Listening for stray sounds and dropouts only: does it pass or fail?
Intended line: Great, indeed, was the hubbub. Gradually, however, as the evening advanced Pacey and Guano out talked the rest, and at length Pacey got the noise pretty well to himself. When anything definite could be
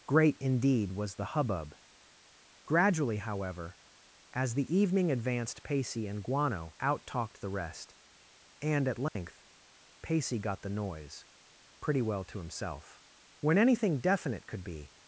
fail